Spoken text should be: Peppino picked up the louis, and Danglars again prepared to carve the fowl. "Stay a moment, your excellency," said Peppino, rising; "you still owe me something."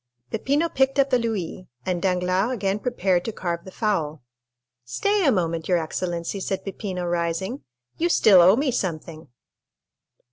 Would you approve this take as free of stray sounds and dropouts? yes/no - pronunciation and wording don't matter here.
yes